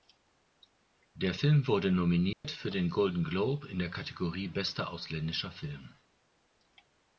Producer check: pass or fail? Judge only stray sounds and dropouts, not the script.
fail